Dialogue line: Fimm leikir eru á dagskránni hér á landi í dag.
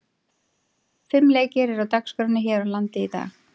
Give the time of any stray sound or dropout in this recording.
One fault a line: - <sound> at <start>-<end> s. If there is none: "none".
none